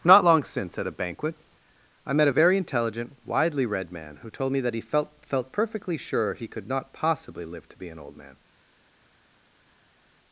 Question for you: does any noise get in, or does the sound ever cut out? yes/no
no